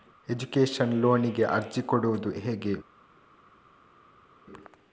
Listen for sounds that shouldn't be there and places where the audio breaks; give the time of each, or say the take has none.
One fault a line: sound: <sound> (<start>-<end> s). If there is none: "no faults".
no faults